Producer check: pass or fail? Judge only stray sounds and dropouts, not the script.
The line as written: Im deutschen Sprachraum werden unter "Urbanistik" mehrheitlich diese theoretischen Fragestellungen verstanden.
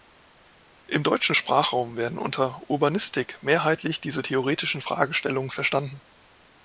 pass